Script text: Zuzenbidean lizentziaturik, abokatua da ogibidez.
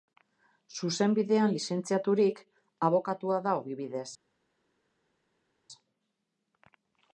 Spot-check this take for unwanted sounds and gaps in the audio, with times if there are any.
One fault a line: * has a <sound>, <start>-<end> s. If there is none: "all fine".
all fine